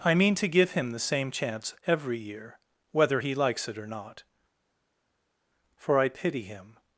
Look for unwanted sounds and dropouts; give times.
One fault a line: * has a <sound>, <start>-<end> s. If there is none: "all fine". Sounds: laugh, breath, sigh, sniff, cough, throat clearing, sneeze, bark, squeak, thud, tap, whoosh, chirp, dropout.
all fine